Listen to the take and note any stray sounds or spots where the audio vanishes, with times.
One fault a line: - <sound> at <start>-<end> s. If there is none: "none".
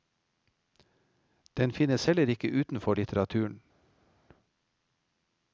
none